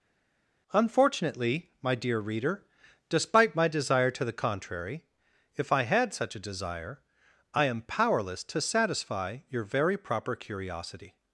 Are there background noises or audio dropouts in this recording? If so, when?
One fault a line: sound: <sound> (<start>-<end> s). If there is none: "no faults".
no faults